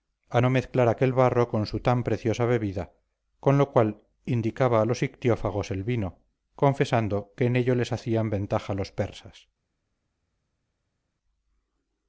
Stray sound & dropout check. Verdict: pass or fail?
pass